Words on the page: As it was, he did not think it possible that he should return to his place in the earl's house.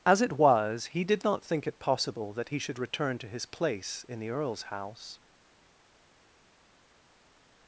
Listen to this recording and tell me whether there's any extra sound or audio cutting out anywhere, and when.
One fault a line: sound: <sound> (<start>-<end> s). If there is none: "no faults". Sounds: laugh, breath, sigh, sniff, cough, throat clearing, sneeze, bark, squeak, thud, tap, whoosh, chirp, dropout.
no faults